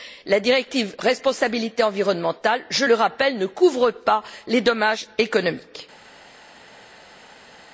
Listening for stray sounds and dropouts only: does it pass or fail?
pass